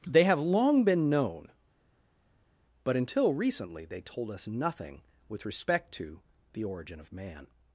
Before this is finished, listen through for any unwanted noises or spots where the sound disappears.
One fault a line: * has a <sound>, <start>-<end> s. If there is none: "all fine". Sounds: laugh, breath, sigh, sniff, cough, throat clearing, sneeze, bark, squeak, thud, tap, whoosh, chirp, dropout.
all fine